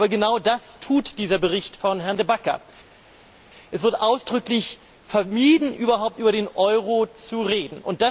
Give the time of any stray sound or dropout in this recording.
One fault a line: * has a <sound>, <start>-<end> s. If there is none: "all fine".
all fine